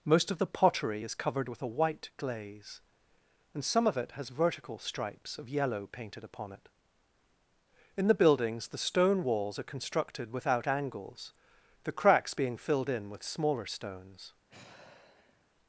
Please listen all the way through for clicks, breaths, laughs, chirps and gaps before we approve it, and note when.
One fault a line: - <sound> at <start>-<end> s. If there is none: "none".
- sigh at 14.5-15.5 s